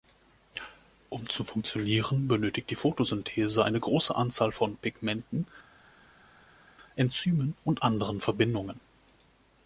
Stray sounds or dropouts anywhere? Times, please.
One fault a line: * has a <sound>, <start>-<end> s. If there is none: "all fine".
all fine